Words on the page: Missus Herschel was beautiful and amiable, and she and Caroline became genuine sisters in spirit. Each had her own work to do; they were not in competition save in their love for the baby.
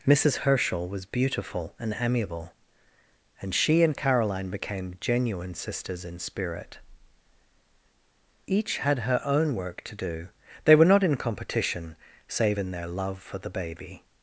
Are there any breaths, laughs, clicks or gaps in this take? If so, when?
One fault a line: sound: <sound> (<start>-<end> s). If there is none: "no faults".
no faults